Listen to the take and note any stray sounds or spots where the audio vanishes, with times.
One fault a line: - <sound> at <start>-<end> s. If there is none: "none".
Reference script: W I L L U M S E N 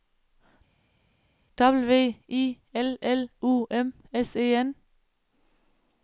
none